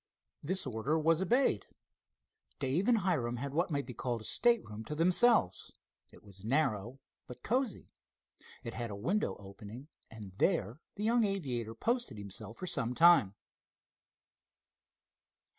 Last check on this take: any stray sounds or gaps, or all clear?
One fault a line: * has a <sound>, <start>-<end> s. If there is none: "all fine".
all fine